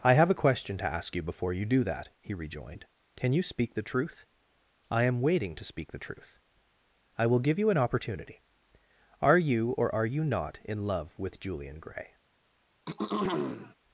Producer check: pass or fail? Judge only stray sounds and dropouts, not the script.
fail